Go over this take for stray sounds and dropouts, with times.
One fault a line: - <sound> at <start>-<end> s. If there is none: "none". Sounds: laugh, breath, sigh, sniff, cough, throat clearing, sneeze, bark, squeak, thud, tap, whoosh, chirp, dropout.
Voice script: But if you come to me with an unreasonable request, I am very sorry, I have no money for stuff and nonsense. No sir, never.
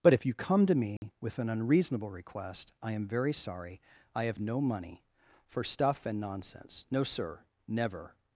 - dropout at 1.0-1.0 s